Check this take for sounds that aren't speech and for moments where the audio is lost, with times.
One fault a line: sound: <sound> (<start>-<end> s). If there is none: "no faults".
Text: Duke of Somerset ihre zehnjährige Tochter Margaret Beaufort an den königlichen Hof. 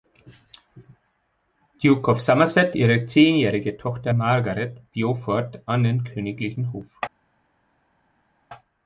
no faults